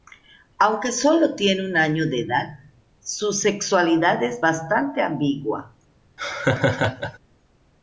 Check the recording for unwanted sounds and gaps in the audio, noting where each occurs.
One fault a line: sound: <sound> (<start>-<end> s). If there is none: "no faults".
sound: laugh (6.2-7.2 s)